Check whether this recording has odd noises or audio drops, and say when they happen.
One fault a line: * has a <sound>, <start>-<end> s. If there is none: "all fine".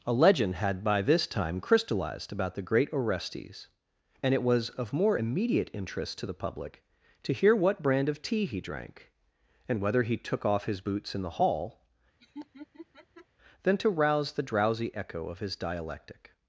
* has a laugh, 12.2-13.3 s